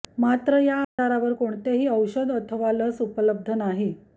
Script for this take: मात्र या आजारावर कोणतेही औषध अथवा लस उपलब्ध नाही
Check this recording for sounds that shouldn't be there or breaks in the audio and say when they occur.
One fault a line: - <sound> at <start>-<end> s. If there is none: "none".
- dropout at 0.8-1.0 s